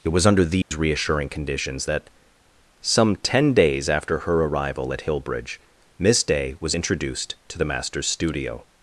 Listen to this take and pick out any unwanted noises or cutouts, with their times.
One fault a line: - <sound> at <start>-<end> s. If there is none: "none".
- dropout at 0.6-0.7 s